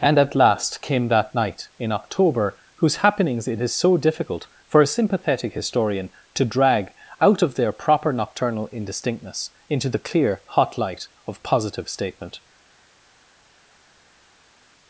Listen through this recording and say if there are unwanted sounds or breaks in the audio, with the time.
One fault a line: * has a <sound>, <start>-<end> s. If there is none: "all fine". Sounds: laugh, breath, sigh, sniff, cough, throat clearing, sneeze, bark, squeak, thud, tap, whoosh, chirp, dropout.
all fine